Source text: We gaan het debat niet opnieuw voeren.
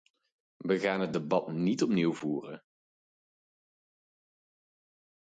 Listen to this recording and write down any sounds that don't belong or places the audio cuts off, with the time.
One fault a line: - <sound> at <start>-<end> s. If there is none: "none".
none